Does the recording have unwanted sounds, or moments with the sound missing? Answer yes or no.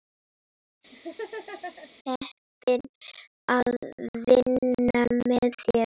yes